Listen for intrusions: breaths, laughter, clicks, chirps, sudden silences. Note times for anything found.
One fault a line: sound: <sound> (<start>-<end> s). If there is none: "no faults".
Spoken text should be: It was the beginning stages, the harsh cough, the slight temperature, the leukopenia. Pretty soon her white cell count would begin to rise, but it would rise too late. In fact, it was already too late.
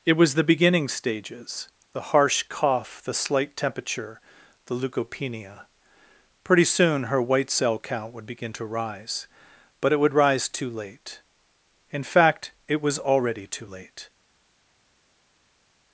no faults